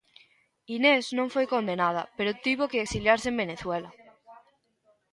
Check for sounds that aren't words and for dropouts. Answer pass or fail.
pass